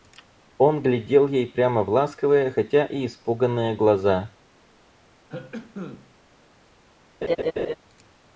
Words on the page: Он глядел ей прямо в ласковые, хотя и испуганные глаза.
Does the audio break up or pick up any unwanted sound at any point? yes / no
yes